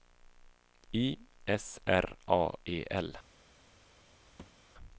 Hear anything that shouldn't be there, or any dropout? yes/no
yes